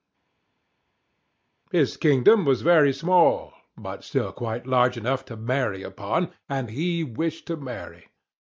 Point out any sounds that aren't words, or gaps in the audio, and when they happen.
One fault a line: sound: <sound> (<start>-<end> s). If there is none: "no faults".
no faults